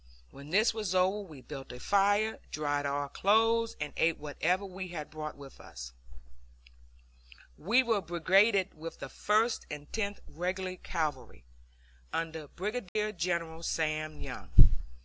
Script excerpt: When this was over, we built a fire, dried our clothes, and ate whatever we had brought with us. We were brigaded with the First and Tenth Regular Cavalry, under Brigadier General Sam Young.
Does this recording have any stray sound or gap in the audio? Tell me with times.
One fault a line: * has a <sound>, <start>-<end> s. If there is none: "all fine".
* has a dropout, 12.9-13.0 s